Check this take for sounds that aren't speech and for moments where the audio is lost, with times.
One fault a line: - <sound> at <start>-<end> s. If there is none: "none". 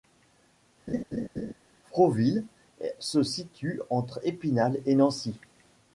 - laugh at 0.9-1.5 s